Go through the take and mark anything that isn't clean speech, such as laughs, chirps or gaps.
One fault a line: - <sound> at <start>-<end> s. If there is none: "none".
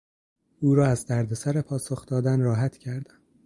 none